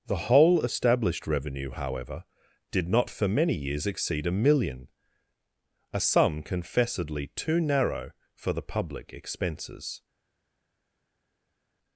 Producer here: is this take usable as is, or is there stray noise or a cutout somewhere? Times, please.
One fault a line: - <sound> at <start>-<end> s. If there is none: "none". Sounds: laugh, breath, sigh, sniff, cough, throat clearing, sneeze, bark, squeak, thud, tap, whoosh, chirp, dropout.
none